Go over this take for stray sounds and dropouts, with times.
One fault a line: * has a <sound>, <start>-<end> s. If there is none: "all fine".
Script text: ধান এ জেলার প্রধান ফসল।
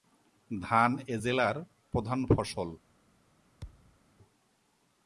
* has a thud, 3.6-4.0 s